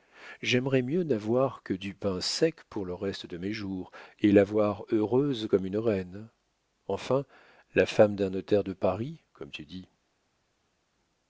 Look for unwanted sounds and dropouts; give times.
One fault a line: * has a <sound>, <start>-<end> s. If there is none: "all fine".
all fine